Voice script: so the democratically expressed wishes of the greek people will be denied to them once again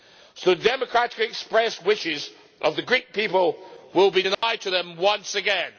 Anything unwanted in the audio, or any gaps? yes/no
yes